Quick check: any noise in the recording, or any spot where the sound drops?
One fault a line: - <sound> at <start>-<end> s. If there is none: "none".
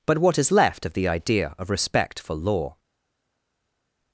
none